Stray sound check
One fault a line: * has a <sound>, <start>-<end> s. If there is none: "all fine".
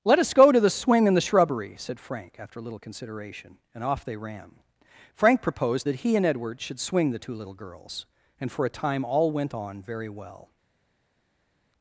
all fine